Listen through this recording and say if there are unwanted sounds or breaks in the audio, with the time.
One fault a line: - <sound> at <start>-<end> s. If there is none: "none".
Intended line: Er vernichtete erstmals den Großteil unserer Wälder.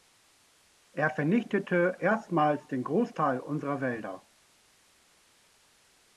none